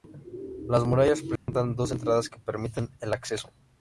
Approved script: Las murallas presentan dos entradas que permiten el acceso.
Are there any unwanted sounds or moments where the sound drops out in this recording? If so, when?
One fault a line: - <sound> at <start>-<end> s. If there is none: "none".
- dropout at 1.4-1.5 s